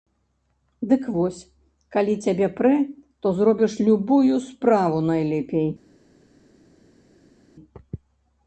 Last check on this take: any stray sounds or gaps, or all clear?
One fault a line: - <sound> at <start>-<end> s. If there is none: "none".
none